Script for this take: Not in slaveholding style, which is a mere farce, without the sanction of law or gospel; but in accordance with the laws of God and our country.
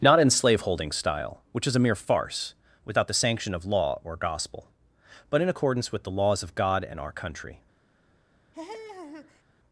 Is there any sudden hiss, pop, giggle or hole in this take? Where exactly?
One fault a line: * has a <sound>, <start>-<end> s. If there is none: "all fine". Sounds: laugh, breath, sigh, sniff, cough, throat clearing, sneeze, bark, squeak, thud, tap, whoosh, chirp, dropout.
* has a laugh, 8.5-9.4 s